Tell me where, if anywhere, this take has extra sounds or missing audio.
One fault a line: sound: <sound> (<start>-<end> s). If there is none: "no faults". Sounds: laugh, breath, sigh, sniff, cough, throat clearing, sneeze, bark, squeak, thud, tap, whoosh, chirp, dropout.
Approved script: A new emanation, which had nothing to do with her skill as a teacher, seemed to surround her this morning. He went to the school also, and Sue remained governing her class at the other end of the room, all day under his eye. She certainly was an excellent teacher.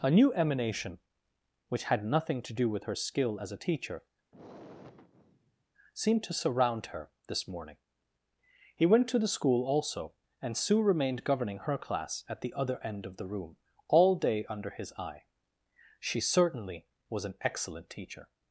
sound: sigh (4.3-5.6 s)